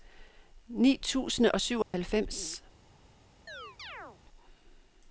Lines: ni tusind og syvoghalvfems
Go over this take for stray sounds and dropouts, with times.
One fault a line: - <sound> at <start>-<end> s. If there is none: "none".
- dropout at 1.8-1.9 s
- chirp at 3.5-4.2 s